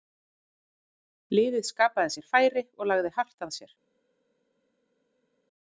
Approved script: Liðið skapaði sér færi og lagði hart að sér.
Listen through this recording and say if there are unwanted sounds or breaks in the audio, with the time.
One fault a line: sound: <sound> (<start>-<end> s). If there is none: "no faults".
no faults